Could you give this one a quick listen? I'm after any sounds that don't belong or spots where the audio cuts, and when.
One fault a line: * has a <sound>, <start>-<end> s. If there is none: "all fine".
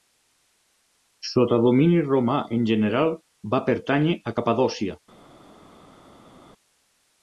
all fine